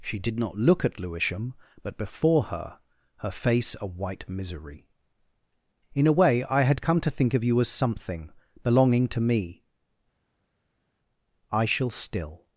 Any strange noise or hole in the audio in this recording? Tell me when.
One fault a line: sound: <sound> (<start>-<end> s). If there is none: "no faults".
no faults